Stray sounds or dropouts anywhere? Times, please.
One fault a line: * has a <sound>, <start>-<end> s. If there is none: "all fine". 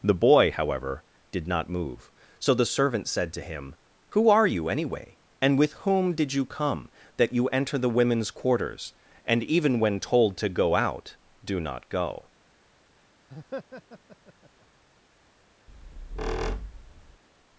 * has a laugh, 13.3-14.7 s
* has a squeak, 15.7-17.2 s